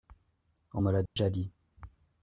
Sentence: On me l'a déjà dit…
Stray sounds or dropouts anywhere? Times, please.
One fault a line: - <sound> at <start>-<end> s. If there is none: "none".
- dropout at 1.1-1.2 s